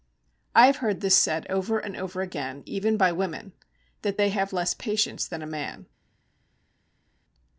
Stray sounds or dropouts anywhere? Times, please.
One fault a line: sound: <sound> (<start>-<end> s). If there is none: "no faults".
no faults